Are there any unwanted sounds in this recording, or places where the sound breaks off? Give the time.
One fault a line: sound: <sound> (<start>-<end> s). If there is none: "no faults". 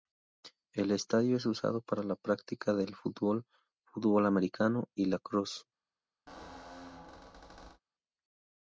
sound: squeak (6.3-7.8 s)